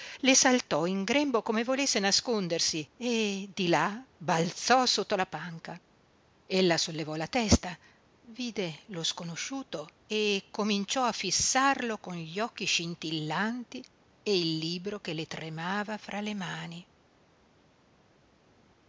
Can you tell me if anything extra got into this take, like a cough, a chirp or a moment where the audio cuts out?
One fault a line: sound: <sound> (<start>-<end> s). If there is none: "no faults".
no faults